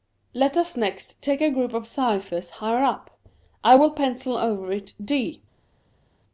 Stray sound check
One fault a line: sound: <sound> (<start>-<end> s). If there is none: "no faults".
no faults